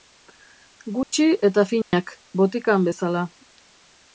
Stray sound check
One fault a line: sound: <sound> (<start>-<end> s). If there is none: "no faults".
sound: dropout (1.0-1.1 s)
sound: dropout (1.8-1.9 s)